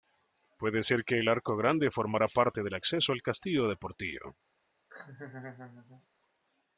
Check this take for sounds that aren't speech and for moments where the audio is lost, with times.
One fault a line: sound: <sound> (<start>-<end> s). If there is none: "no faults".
sound: laugh (4.9-6.1 s)